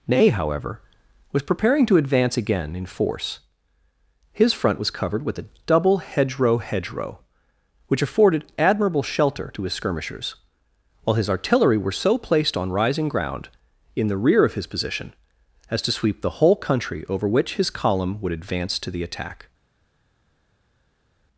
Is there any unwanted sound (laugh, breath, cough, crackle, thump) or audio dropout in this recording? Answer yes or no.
no